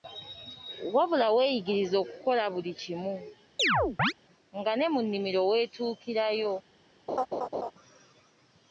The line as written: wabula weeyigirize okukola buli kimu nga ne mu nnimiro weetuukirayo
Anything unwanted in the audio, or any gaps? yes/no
yes